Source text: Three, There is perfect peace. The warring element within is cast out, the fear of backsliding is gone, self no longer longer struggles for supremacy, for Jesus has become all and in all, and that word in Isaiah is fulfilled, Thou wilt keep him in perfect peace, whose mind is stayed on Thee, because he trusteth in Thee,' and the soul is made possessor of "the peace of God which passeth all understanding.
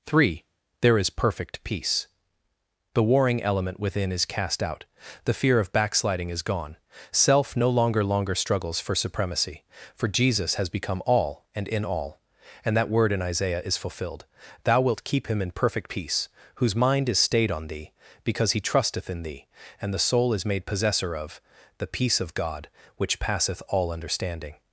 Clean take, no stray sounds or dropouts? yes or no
yes